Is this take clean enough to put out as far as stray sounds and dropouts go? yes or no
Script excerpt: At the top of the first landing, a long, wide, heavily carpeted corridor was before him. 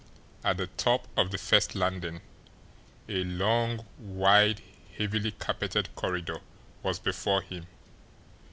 yes